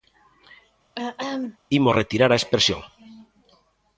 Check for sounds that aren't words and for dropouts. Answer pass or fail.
fail